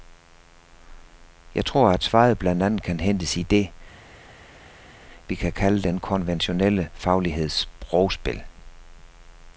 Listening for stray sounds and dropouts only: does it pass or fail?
pass